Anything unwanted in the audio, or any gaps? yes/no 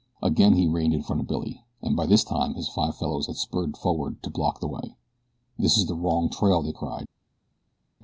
no